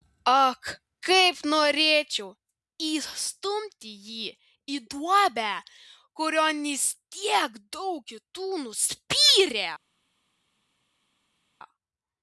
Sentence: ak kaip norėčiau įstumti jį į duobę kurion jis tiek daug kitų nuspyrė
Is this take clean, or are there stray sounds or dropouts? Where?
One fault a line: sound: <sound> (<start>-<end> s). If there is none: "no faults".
no faults